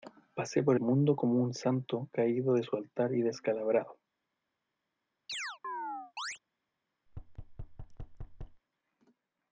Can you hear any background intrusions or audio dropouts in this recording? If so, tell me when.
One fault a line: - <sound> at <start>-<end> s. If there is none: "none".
- chirp at 5.3-6.4 s
- thud at 7.1-8.6 s